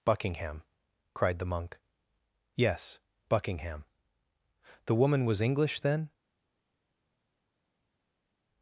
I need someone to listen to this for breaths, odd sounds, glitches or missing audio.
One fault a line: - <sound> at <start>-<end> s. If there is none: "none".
none